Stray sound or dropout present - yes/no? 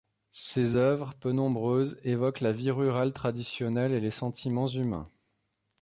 no